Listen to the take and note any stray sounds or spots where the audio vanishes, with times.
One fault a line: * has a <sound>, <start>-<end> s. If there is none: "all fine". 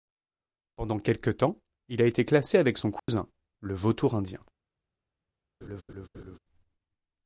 * has a dropout, 3.0-3.1 s
* has a laugh, 5.6-6.4 s